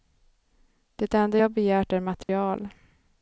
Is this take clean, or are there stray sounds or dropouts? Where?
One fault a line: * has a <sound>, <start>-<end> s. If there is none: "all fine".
* has a dropout, 2.2-2.3 s